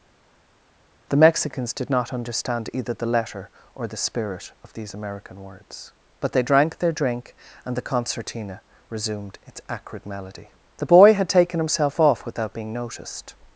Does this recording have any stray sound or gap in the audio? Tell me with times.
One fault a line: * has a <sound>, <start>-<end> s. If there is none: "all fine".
all fine